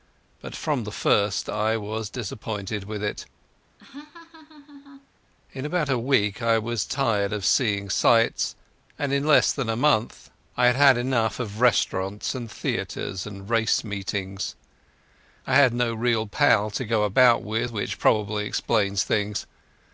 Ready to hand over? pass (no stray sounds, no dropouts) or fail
fail